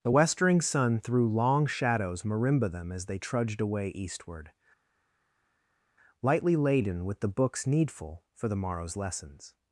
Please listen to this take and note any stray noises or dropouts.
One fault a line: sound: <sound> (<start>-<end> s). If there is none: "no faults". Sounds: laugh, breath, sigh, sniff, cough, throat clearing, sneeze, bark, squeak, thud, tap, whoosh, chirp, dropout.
no faults